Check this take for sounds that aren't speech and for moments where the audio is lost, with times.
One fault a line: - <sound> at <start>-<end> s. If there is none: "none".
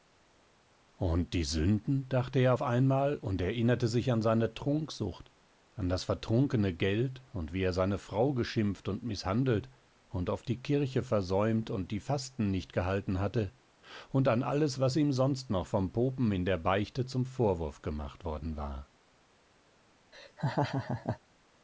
- laugh at 20.1-21.2 s